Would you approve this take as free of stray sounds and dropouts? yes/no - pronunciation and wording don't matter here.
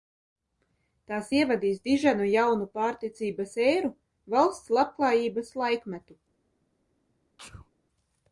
no